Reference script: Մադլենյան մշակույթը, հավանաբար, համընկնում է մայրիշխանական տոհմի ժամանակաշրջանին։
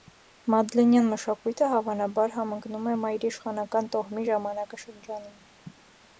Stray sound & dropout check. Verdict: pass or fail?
pass